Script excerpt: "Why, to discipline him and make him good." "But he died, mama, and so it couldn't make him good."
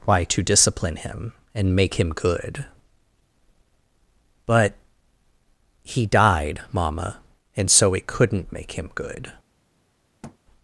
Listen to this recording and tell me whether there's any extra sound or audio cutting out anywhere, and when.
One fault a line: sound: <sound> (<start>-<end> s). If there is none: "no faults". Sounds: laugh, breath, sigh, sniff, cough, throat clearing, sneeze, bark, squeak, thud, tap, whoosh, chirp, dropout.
sound: thud (10.2-10.4 s)